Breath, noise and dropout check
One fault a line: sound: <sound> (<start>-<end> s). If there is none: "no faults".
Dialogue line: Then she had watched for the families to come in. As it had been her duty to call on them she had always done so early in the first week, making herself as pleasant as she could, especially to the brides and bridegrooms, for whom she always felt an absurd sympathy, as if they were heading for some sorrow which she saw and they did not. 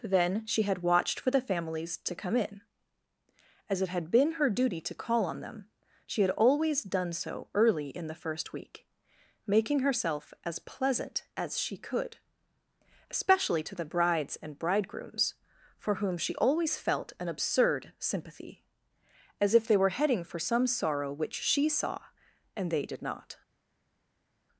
no faults